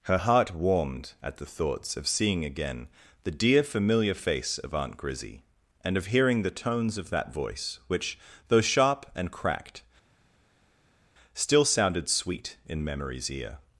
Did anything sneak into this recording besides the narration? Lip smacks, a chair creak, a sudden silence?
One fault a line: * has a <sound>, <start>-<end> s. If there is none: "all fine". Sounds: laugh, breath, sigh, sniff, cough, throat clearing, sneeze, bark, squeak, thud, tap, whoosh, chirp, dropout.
all fine